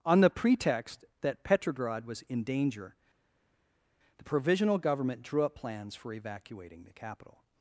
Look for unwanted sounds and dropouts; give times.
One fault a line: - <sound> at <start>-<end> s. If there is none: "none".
none